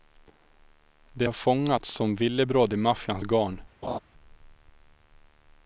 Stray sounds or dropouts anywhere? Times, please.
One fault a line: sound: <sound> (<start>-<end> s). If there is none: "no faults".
sound: laugh (3.8-4.0 s)